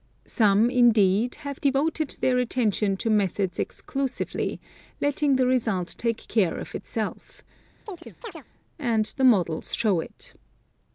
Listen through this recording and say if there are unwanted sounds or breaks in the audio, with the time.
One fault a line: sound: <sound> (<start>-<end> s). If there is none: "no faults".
sound: chirp (7.9-8.4 s)